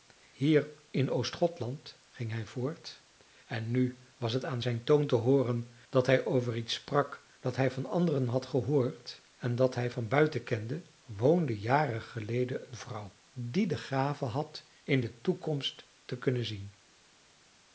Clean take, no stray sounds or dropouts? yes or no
yes